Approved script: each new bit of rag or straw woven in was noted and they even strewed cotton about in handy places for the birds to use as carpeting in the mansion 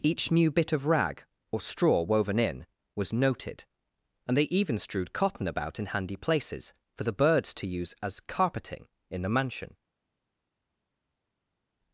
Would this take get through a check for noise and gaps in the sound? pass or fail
pass